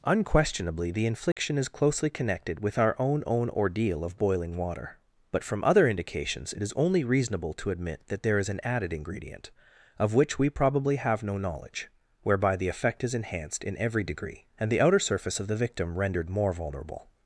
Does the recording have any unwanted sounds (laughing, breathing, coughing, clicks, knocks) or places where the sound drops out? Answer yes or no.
yes